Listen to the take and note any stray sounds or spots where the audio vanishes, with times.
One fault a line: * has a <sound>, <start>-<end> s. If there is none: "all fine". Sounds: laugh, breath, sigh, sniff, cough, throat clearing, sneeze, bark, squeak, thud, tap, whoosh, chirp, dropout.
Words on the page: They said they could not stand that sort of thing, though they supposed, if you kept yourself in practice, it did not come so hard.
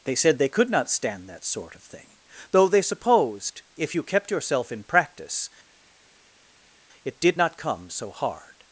all fine